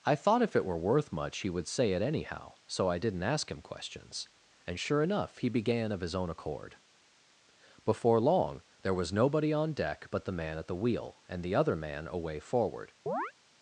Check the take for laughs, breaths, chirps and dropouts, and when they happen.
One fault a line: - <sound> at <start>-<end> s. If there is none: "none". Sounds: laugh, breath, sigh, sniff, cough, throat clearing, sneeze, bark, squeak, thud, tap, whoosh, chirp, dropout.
- chirp at 13.1-13.3 s